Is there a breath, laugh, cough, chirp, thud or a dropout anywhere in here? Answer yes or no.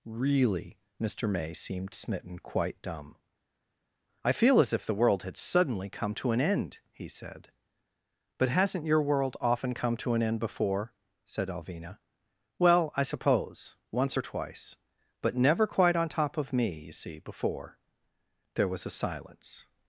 no